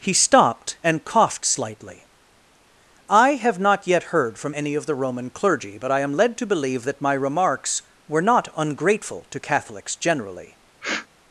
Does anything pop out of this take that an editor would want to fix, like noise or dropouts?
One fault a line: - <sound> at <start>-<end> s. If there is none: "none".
- sniff at 10.8-11.1 s